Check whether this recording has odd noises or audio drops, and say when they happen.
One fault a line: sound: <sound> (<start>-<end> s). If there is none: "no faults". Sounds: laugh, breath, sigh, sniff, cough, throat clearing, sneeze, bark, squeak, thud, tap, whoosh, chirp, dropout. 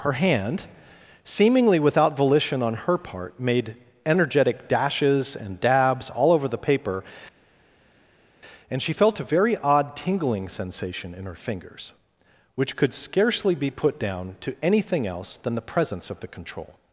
no faults